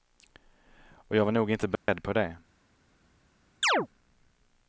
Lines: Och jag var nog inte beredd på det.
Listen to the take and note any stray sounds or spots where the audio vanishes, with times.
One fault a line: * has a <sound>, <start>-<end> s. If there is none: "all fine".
* has a dropout, 1.8-1.9 s
* has a chirp, 3.6-3.9 s